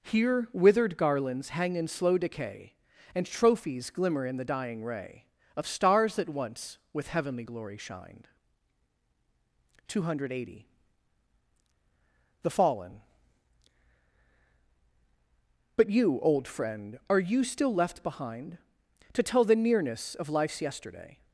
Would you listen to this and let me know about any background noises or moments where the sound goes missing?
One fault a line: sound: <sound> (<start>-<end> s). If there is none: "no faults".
no faults